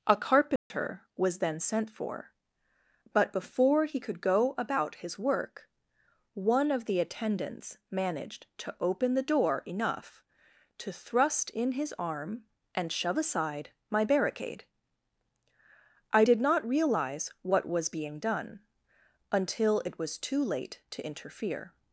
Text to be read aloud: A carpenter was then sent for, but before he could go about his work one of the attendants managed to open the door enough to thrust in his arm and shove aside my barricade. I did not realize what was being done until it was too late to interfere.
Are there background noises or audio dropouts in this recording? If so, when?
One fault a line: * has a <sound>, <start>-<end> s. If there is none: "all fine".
* has a dropout, 0.6-0.7 s